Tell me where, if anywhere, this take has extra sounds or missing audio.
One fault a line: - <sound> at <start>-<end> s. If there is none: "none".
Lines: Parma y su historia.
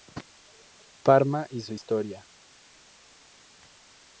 none